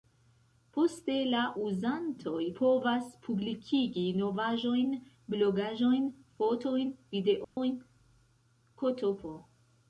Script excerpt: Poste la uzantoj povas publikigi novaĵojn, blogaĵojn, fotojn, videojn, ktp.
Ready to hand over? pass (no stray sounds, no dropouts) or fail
fail